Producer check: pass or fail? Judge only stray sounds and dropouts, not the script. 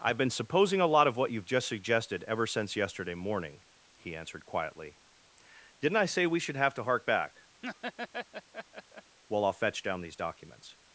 fail